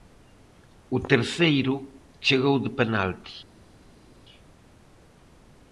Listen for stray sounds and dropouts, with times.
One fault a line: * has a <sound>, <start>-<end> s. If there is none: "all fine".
all fine